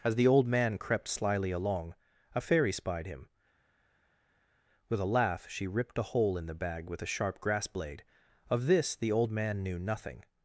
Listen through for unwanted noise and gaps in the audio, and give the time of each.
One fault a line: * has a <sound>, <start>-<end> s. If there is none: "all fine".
all fine